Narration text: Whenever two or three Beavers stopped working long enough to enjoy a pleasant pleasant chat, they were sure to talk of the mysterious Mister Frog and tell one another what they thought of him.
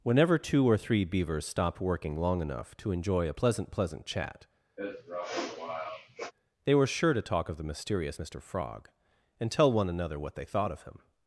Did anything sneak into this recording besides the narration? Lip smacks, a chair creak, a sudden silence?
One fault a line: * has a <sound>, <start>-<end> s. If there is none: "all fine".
* has a sniff, 4.8-6.3 s